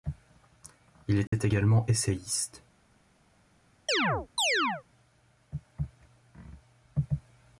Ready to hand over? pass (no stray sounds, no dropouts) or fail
fail